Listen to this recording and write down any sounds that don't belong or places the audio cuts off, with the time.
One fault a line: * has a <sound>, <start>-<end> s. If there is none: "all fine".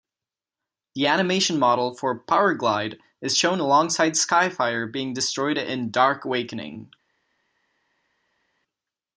all fine